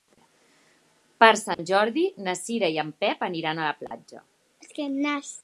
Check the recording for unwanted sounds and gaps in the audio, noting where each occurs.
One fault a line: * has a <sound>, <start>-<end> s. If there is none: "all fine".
* has a dropout, 1.5-1.6 s
* has a dropout, 3.9-3.9 s